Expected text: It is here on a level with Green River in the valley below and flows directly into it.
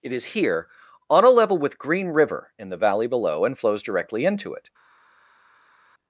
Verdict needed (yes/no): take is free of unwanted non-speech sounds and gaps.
yes